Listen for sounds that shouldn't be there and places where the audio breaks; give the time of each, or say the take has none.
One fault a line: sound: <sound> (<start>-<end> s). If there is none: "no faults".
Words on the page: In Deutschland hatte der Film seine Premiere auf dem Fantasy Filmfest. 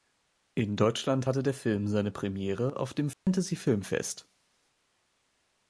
sound: dropout (3.1-3.3 s)